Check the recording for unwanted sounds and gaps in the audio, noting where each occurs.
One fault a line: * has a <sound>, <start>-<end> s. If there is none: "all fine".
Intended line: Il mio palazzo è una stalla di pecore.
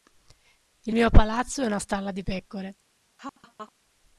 * has a laugh, 3.2-3.7 s